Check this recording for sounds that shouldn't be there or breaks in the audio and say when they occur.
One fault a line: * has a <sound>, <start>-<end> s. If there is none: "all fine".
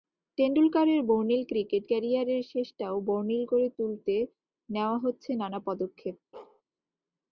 * has a bark, 6.3-6.6 s